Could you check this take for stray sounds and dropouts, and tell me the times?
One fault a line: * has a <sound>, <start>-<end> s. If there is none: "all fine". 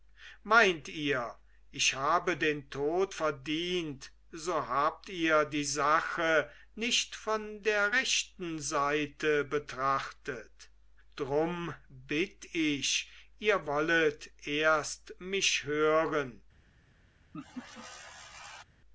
* has a laugh, 17.3-18.6 s